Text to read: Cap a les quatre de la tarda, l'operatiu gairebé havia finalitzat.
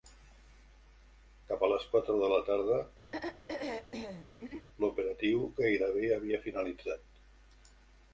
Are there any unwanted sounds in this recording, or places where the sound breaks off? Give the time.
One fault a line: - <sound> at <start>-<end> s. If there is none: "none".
- throat clearing at 3.1-4.7 s